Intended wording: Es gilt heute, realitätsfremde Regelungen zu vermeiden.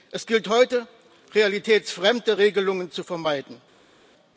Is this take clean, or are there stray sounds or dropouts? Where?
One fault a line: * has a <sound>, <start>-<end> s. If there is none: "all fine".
all fine